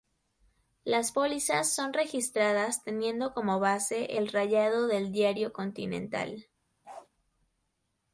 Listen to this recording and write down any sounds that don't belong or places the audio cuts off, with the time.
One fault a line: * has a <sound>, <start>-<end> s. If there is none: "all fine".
* has a bark, 6.8-7.1 s